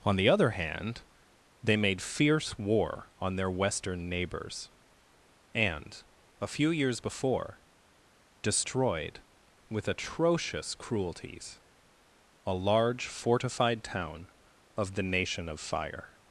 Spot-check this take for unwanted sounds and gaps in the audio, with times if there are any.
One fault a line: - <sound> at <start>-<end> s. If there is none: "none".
none